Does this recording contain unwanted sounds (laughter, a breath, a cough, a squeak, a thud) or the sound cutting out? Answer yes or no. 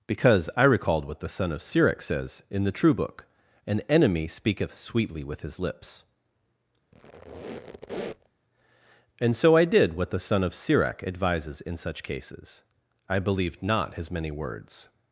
yes